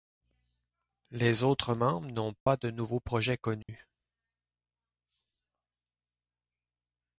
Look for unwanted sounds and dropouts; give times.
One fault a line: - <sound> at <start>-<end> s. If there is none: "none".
- dropout at 2.4-2.5 s
- dropout at 3.6-3.7 s